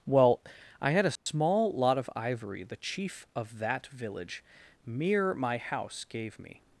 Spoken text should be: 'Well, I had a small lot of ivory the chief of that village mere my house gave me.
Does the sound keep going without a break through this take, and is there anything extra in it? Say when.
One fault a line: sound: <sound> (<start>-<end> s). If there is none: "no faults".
sound: dropout (1.2-1.3 s)